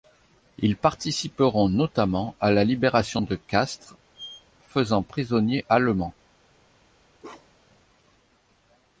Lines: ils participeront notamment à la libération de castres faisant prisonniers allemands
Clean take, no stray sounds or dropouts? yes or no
no